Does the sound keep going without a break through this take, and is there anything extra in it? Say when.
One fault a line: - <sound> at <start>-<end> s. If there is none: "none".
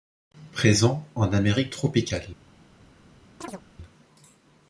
- chirp at 3.4-3.6 s